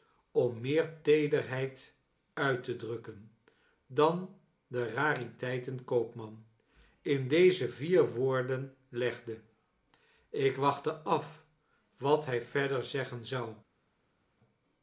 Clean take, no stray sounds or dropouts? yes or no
yes